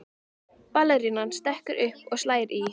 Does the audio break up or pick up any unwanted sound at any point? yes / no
no